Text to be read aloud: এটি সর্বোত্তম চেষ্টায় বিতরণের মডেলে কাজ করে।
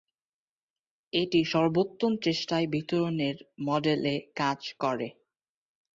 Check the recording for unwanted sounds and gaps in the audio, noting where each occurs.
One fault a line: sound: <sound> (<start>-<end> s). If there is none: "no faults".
no faults